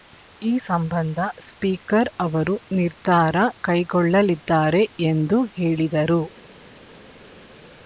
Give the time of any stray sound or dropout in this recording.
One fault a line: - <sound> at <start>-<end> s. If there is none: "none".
none